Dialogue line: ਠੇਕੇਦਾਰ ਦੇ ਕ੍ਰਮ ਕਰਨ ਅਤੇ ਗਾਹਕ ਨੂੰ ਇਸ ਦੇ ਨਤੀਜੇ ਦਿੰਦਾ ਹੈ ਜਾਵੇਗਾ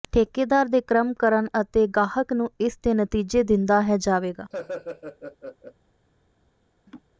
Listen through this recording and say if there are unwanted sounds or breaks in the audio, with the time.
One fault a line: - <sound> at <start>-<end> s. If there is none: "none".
- laugh at 4.5-5.7 s
- laugh at 6.9-7.0 s